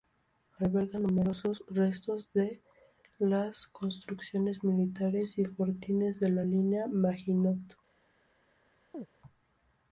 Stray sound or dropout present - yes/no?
yes